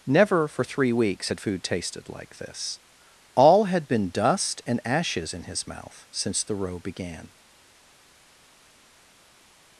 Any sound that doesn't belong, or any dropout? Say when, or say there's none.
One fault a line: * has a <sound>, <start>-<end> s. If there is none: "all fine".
all fine